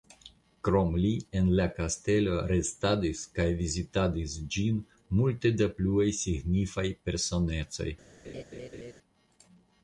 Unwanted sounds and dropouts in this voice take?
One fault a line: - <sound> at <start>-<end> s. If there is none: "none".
- laugh at 8.2-8.9 s